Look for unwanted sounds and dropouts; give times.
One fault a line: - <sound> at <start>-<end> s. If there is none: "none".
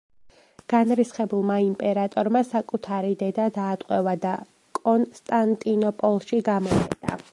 none